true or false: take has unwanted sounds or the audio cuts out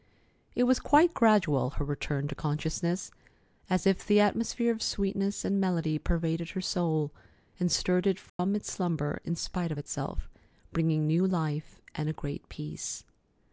true